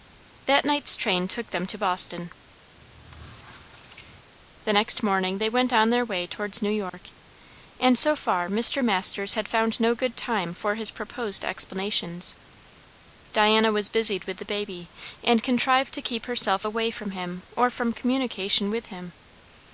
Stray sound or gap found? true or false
true